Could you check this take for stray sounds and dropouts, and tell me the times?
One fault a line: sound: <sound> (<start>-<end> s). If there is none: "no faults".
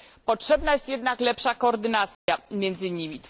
sound: dropout (2.1-2.3 s)